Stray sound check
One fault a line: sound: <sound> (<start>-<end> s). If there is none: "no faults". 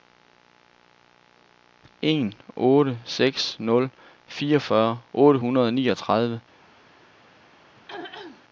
sound: throat clearing (7.7-8.4 s)